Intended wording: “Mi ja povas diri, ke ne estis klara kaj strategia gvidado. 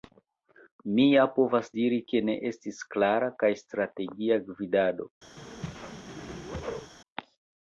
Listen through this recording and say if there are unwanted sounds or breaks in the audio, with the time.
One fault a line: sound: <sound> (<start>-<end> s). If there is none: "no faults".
sound: whoosh (5.4-6.9 s)